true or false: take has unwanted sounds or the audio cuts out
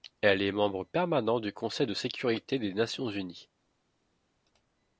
false